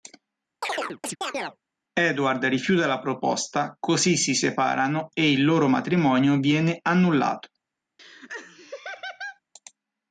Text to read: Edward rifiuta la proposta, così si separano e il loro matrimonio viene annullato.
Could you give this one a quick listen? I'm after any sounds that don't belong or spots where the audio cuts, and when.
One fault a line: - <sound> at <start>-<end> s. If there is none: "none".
- chirp at 0.6-1.6 s
- laugh at 8.0-9.4 s